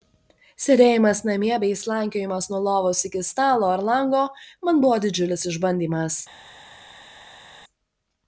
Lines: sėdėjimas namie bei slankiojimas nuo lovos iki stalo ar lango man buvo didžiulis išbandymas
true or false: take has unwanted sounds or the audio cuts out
false